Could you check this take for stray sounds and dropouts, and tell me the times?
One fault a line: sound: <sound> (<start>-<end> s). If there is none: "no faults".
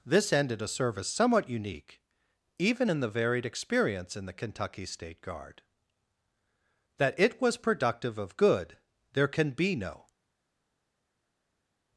no faults